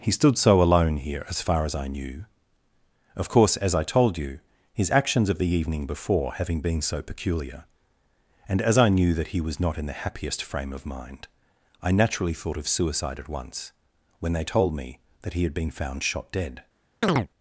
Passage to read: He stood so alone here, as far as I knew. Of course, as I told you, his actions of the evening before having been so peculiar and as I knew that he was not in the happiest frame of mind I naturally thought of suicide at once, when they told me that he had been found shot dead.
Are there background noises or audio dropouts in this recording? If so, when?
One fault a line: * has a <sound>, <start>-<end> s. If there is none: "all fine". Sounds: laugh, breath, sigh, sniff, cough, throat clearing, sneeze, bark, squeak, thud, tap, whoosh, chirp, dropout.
* has a chirp, 17.0-17.3 s